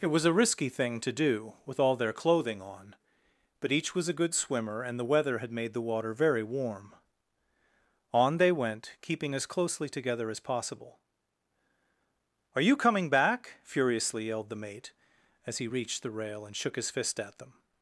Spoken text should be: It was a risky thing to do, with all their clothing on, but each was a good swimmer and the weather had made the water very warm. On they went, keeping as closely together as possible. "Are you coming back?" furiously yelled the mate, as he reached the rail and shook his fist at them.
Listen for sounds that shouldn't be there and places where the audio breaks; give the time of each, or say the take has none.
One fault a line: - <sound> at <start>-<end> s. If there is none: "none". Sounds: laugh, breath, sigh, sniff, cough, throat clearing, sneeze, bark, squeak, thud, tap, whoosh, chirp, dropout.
none